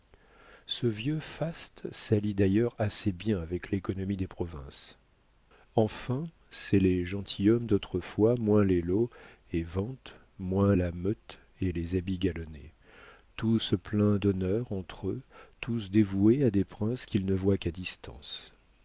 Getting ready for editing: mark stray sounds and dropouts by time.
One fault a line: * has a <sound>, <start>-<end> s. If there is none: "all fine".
all fine